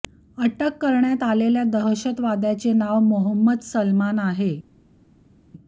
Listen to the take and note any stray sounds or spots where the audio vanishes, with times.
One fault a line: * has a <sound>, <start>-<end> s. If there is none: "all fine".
all fine